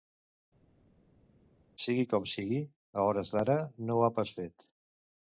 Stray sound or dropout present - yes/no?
no